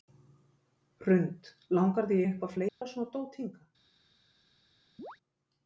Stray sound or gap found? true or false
true